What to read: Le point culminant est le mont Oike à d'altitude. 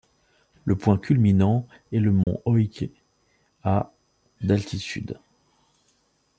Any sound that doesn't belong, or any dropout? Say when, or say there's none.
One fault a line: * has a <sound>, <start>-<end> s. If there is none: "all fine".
* has a dropout, 2.2-2.3 s